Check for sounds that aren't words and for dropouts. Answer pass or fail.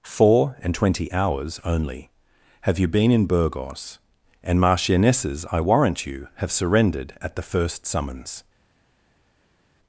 pass